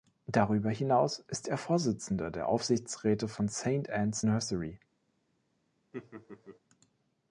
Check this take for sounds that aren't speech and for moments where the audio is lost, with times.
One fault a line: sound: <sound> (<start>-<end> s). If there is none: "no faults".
sound: laugh (5.9-6.6 s)